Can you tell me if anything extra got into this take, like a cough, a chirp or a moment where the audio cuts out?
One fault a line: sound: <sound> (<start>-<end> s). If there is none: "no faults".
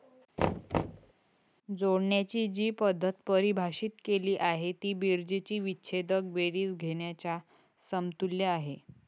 sound: thud (0.4-1.1 s)